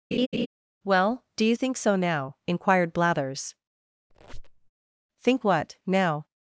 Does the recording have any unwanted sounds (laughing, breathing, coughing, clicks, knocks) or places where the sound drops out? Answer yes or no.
yes